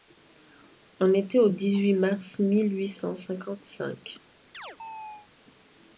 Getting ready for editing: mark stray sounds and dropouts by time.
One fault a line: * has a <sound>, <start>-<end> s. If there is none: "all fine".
* has a chirp, 4.5-5.3 s